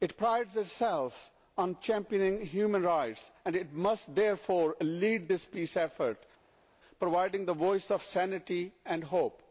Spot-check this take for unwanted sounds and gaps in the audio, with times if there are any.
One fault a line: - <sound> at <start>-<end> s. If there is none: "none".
none